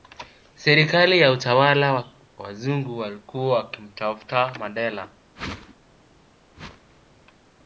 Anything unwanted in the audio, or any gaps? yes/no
yes